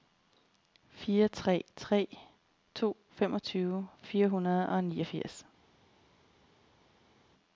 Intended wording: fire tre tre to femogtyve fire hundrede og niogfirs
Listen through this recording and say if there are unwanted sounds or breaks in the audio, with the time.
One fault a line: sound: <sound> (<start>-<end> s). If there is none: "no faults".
no faults